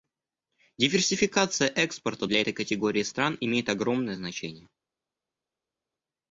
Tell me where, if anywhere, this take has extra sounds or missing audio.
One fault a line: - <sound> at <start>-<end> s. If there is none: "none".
none